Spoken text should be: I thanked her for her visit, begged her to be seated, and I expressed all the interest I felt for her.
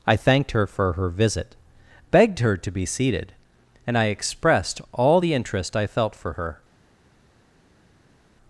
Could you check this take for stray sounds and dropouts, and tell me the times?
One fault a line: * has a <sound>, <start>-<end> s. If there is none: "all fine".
all fine